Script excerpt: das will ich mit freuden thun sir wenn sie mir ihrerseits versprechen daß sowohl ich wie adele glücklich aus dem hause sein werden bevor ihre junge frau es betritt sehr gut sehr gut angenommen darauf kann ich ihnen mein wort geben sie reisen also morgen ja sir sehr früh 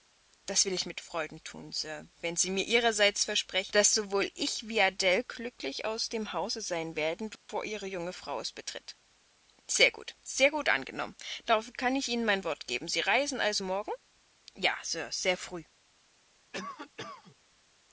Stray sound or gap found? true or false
true